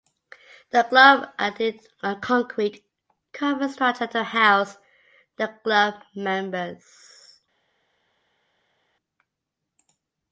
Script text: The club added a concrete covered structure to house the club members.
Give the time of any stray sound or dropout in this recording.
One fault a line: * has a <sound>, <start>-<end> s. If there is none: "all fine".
all fine